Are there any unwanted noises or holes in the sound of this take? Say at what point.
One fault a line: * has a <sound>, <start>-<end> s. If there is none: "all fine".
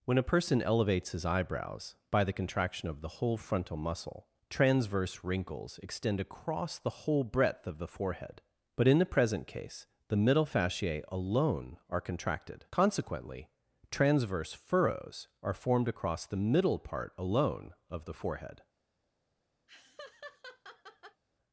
* has a laugh, 19.7-21.2 s